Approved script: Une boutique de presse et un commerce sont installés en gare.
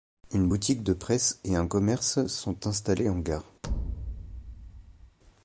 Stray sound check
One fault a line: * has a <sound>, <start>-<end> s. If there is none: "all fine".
* has a thud, 3.6-5.2 s